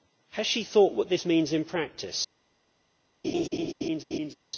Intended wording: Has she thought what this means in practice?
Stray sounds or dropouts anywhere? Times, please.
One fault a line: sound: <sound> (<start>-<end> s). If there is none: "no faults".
sound: laugh (3.2-4.4 s)